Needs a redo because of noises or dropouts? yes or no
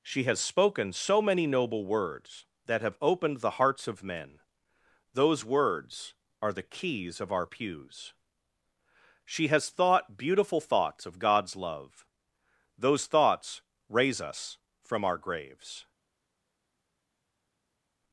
no